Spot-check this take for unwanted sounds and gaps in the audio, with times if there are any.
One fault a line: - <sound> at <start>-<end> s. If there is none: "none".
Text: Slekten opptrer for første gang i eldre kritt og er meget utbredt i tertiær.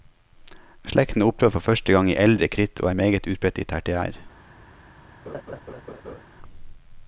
- laugh at 5.3-6.2 s